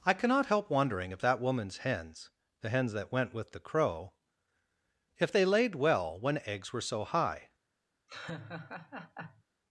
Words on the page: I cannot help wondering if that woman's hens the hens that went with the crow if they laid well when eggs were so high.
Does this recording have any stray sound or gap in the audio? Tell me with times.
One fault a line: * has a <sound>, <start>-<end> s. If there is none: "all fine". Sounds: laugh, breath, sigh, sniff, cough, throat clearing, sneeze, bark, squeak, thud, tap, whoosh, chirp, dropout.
* has a laugh, 8.1-9.4 s